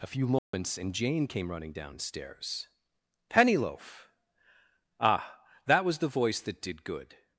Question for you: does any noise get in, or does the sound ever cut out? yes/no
yes